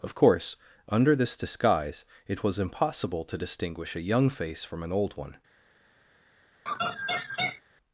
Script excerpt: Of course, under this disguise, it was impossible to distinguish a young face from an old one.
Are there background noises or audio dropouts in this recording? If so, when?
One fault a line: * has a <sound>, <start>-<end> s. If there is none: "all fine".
* has a laugh, 6.7-7.6 s